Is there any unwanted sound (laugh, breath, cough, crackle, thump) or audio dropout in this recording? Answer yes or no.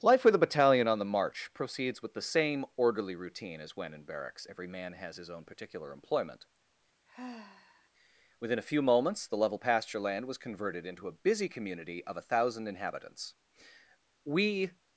yes